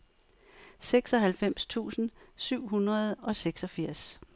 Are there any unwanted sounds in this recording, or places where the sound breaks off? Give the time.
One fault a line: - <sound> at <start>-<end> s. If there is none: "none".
none